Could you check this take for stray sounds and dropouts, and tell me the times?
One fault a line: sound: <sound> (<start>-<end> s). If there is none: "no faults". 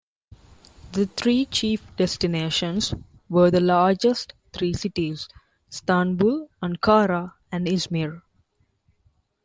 no faults